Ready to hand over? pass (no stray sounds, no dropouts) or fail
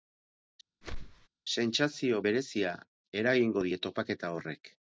fail